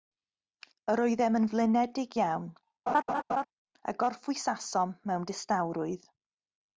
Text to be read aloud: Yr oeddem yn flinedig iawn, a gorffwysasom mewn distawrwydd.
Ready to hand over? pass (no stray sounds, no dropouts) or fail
fail